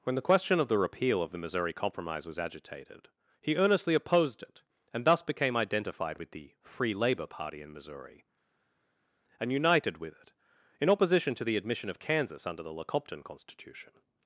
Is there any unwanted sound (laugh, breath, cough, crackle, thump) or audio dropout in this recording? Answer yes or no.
no